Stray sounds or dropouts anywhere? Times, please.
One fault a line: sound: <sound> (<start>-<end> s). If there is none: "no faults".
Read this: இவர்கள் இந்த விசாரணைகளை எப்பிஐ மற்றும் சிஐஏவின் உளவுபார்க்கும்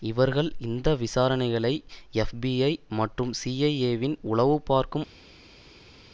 no faults